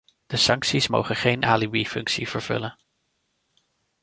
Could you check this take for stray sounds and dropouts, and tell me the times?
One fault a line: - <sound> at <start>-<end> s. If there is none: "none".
none